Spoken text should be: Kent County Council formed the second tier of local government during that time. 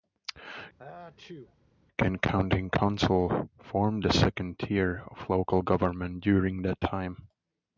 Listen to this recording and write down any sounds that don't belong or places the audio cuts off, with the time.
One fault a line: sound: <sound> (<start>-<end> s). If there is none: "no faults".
sound: sneeze (0.8-1.6 s)